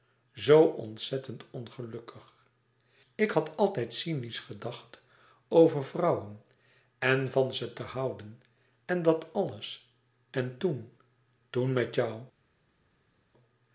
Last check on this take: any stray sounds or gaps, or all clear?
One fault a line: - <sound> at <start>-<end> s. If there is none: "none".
none